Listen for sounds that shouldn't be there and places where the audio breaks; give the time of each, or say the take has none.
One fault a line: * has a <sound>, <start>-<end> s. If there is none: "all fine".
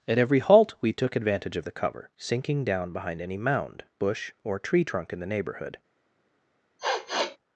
* has a sniff, 6.8-7.4 s